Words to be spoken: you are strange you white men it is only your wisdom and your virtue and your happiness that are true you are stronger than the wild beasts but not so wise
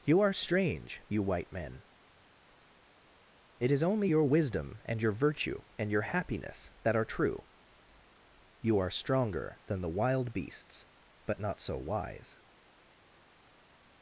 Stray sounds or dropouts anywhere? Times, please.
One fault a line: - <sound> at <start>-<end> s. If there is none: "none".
none